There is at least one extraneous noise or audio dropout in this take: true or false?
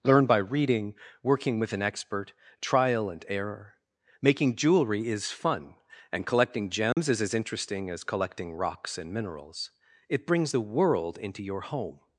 true